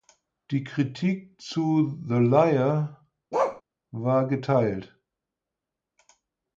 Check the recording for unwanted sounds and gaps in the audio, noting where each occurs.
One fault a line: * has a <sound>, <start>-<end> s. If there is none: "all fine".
* has a bark, 3.3-3.6 s